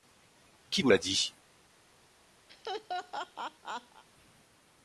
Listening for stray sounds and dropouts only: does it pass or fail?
fail